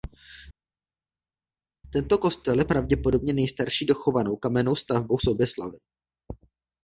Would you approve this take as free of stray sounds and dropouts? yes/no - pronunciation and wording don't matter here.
yes